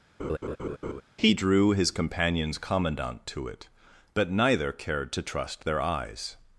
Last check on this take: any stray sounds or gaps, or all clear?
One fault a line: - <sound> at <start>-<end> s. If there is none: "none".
- laugh at 0.2-1.0 s